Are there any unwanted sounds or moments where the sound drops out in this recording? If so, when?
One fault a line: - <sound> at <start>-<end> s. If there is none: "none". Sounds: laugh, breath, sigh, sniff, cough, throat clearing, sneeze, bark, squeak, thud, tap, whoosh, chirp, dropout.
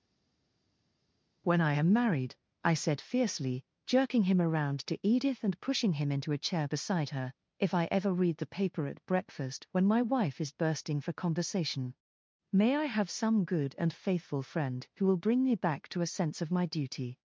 none